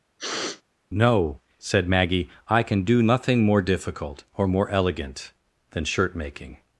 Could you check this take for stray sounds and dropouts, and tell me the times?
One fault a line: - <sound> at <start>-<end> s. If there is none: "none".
- sniff at 0.2-0.6 s